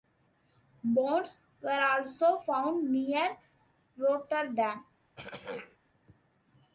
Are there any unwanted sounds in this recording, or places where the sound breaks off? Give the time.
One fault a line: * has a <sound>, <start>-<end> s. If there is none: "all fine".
* has a throat clearing, 5.2-5.8 s